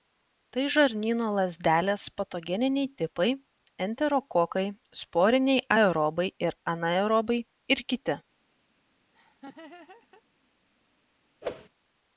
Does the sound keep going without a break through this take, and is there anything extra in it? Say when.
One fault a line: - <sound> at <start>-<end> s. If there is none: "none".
- laugh at 9.1-10.2 s
- whoosh at 11.4-11.7 s